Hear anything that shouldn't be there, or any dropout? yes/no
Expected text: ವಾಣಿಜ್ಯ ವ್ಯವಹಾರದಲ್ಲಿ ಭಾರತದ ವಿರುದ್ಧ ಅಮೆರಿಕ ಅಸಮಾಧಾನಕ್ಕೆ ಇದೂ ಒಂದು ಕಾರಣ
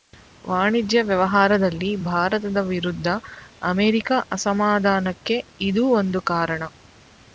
no